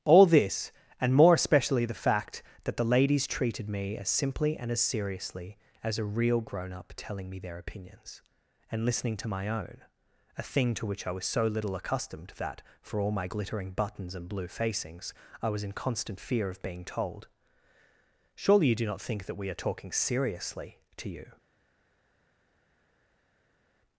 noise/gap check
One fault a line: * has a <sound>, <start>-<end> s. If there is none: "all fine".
all fine